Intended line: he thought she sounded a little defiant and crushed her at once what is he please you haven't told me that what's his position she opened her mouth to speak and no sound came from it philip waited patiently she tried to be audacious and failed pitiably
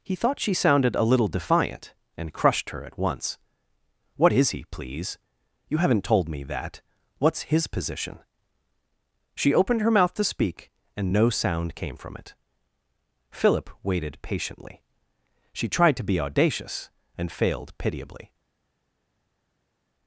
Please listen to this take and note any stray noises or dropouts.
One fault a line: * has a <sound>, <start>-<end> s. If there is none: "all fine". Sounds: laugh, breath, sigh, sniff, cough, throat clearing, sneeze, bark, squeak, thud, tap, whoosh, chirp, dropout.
all fine